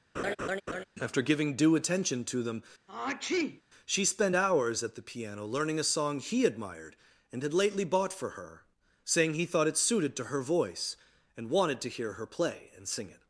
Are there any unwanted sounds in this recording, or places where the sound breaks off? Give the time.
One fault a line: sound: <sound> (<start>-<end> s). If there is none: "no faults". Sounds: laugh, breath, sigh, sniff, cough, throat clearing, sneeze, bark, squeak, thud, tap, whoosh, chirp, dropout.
sound: laugh (0.1-0.8 s)
sound: sneeze (2.9-3.6 s)